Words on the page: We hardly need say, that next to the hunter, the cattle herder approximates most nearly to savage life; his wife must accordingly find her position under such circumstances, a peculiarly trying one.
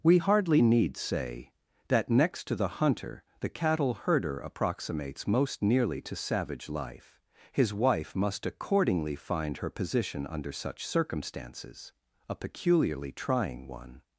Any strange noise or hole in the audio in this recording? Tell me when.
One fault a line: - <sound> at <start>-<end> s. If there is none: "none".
none